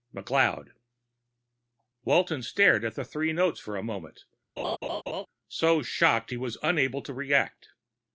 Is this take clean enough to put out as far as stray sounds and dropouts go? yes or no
no